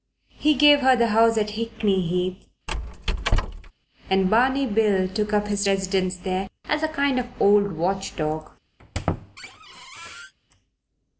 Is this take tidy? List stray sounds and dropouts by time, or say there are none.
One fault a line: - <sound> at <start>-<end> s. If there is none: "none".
- squeak at 2.7-3.7 s
- squeak at 8.8-10.3 s